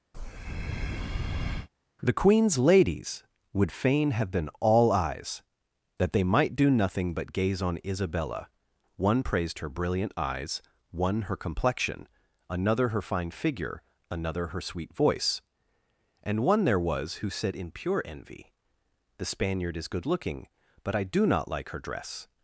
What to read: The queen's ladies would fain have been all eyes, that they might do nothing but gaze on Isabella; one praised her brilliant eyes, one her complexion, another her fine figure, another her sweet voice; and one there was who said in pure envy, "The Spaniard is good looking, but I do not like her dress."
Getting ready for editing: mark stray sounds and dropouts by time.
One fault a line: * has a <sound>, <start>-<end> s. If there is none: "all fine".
* has a breath, 0.1-1.7 s